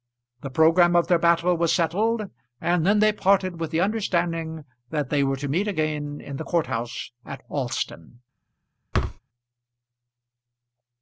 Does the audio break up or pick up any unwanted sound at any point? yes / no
yes